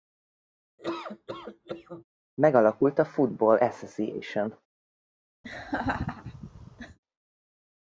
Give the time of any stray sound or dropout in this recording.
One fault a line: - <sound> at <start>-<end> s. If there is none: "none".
- laugh at 0.8-2.0 s
- laugh at 5.4-7.0 s